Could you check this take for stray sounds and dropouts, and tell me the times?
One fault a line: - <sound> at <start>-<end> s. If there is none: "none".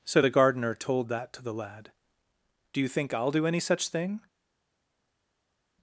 none